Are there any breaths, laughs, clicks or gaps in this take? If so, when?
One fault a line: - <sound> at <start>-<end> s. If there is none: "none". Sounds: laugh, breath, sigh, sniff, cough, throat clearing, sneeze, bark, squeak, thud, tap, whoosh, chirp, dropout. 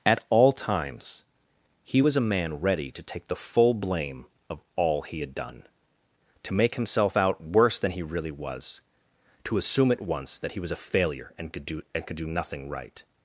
none